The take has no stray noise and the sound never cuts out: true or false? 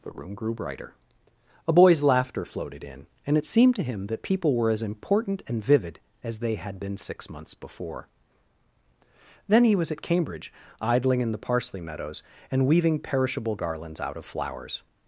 true